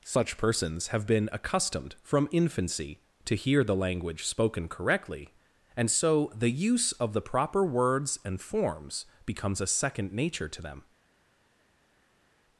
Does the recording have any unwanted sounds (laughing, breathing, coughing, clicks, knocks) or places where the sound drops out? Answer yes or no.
no